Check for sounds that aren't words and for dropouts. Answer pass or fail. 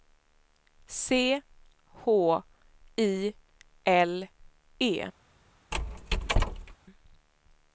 fail